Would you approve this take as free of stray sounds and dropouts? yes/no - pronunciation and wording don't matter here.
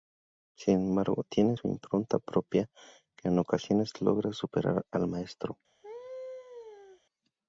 no